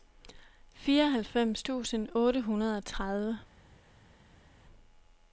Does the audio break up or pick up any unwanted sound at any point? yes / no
no